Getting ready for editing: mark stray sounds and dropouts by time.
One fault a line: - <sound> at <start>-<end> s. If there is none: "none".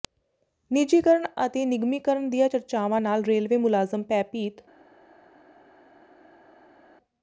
none